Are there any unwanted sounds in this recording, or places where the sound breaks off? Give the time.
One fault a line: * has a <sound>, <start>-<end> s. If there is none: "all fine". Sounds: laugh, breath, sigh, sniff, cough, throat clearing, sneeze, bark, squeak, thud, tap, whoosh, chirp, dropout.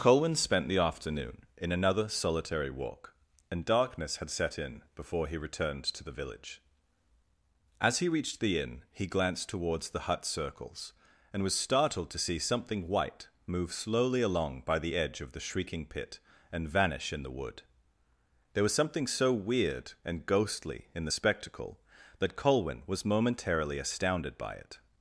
all fine